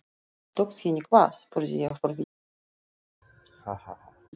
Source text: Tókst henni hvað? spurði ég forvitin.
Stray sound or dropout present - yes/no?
yes